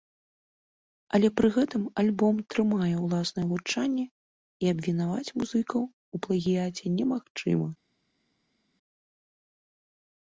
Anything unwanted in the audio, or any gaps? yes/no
no